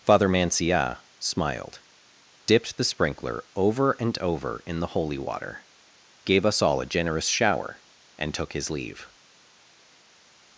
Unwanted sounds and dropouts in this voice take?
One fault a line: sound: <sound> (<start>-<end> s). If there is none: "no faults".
no faults